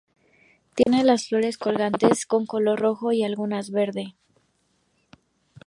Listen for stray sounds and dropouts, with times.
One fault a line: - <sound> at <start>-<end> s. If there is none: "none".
- dropout at 0.8-0.9 s